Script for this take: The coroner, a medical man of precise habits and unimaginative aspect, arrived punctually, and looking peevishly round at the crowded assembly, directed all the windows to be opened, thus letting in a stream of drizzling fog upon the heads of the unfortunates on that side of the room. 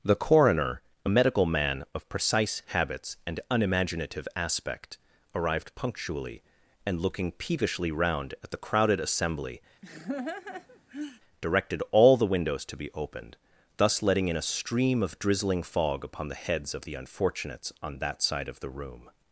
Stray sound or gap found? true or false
true